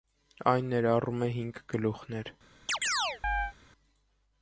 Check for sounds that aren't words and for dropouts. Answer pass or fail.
fail